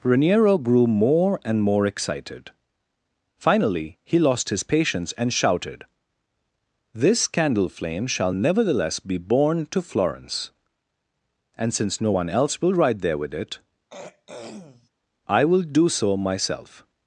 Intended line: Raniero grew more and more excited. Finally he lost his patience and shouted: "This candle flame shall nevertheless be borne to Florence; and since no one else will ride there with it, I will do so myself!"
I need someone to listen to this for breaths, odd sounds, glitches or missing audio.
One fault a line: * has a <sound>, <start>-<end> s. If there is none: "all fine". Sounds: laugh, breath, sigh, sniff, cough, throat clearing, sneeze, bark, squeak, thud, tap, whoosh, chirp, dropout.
* has a throat clearing, 13.9-14.9 s